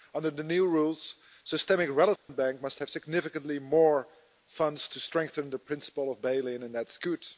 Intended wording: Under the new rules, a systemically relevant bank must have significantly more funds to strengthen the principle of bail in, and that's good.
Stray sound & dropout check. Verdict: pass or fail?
fail